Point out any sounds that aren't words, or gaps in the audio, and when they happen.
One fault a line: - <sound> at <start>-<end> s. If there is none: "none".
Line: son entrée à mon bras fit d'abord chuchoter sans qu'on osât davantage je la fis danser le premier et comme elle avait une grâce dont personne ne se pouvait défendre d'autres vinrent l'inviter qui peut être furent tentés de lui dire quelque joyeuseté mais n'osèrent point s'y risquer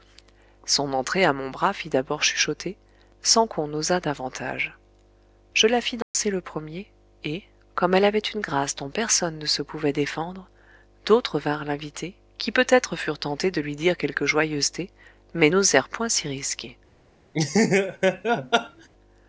- dropout at 6.0-6.1 s
- laugh at 17.3-18.9 s